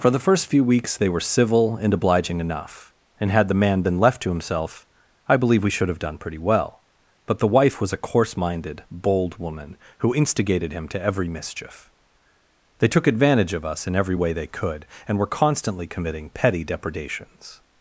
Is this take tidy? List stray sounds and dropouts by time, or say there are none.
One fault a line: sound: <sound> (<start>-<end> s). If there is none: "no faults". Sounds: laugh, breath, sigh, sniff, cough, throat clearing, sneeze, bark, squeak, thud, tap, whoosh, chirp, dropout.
no faults